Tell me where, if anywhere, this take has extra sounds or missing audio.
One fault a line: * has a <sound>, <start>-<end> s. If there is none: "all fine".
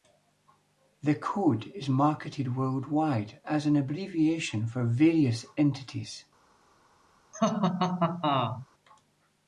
* has a laugh, 7.3-8.7 s